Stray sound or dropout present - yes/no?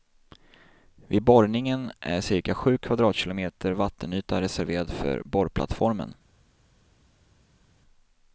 no